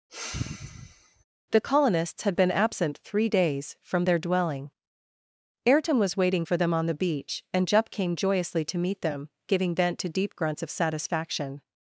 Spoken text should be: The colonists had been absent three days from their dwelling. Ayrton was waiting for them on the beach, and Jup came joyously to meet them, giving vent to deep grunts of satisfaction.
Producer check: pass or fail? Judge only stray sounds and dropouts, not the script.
fail